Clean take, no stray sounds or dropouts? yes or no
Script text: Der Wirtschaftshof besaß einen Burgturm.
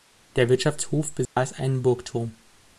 no